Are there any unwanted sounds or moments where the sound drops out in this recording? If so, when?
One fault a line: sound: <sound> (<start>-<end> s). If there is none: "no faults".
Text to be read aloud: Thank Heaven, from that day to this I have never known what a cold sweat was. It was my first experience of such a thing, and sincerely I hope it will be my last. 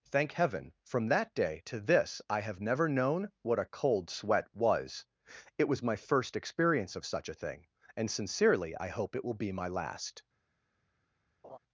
sound: laugh (11.4-11.6 s)